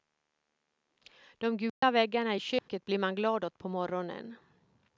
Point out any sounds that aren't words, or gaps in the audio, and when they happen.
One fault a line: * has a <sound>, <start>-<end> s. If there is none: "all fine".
* has a dropout, 1.7-1.8 s
* has a dropout, 2.6-2.7 s